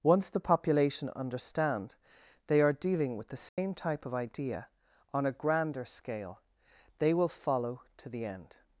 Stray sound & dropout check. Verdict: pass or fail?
fail